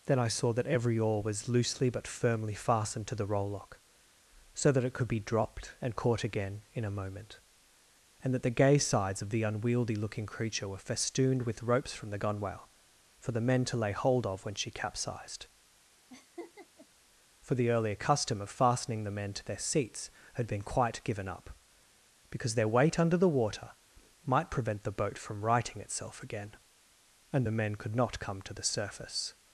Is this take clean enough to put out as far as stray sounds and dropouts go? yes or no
no